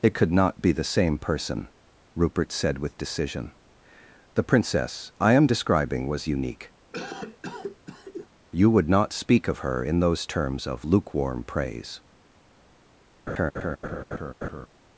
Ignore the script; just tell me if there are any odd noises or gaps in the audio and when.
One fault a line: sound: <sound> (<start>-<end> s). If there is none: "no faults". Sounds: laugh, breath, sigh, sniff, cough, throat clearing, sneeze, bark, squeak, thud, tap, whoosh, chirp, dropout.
sound: cough (6.9-8.3 s)
sound: laugh (13.3-14.7 s)